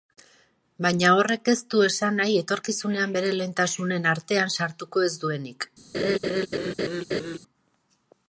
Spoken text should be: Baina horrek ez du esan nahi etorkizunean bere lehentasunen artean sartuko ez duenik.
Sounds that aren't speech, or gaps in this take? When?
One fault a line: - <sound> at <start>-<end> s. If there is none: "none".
- laugh at 5.9-7.4 s